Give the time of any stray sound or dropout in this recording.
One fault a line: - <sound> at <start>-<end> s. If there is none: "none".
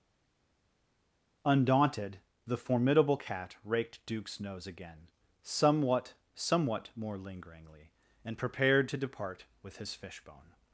none